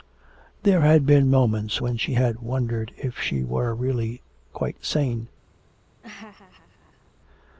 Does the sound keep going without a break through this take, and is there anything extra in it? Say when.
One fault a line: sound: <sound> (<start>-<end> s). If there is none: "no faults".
sound: laugh (6.0-7.1 s)